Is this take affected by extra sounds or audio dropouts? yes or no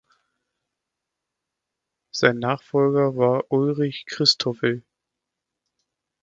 no